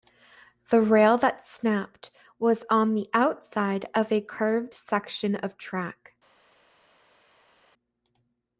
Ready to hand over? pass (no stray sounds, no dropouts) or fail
pass